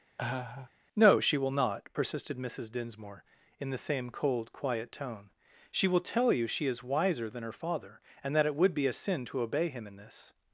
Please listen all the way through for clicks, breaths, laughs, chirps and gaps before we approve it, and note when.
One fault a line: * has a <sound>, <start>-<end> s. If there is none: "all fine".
* has a laugh, 0.2-0.7 s